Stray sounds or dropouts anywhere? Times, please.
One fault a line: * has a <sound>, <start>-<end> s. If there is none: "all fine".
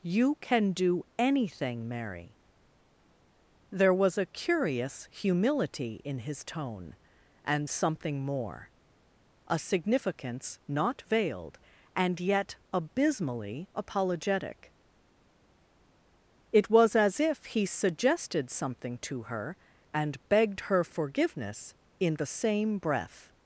all fine